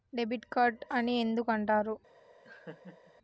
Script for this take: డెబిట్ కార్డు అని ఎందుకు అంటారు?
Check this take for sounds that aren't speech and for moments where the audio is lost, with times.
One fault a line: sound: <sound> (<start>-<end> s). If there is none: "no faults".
sound: laugh (2.4-3.1 s)